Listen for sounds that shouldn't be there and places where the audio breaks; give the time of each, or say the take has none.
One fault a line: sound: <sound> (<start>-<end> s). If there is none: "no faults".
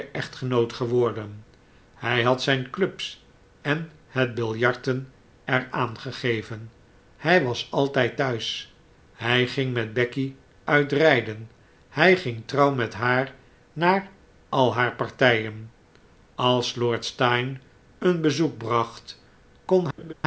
sound: laugh (20.0-20.1 s)